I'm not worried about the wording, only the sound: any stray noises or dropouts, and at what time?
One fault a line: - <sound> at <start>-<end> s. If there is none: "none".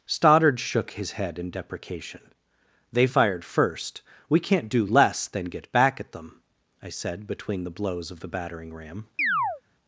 - chirp at 9.2-9.6 s